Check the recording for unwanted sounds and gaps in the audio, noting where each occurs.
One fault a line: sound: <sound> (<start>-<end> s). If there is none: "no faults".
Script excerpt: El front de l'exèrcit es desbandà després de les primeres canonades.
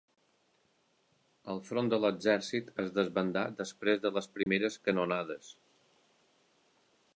sound: dropout (4.4-4.5 s)